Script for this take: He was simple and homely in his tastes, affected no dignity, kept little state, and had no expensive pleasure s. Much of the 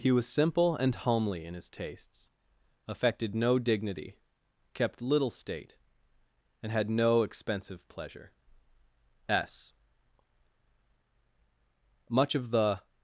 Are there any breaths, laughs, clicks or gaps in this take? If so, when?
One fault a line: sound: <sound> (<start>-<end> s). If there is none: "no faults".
no faults